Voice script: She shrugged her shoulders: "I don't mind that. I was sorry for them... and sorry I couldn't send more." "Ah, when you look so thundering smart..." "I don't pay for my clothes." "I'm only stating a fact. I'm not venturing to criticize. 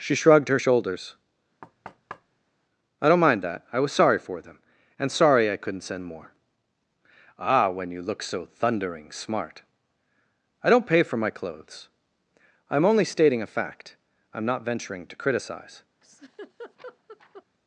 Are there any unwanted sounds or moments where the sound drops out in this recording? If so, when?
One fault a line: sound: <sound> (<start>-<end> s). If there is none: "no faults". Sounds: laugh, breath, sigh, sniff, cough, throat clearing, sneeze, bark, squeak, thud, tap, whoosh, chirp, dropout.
sound: thud (1.6-2.5 s)
sound: laugh (16.0-17.4 s)